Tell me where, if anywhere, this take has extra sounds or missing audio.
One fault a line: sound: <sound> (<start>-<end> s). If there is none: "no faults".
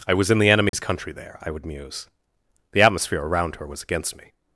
sound: dropout (0.7-0.7 s)